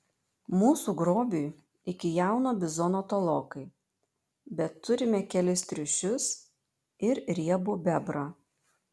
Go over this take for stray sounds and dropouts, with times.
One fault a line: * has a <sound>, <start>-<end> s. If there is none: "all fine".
all fine